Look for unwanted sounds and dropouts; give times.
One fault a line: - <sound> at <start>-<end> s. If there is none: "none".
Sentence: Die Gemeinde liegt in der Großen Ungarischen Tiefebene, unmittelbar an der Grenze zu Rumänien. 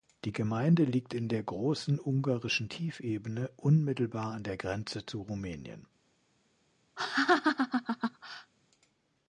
- laugh at 7.0-8.5 s